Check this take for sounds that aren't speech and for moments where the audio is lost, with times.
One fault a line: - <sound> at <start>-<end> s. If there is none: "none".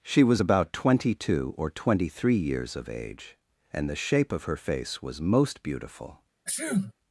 - sneeze at 6.5-6.9 s